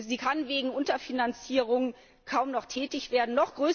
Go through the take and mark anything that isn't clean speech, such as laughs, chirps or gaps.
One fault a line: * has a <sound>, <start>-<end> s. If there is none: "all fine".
all fine